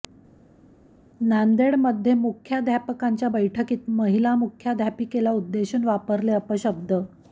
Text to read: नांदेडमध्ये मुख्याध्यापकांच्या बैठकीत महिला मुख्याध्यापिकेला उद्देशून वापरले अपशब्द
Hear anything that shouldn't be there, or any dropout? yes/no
no